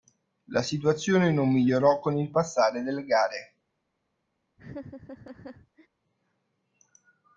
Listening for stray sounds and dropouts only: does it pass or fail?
fail